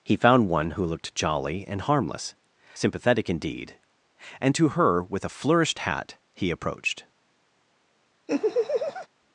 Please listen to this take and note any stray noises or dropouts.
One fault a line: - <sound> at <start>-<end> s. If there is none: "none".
- laugh at 8.3-9.1 s